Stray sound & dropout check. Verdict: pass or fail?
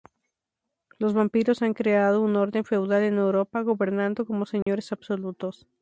fail